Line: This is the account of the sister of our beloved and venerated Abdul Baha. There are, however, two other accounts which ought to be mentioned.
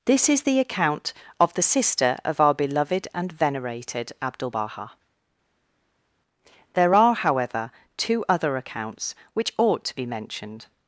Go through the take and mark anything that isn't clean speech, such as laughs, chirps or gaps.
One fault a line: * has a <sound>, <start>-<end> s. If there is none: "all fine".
all fine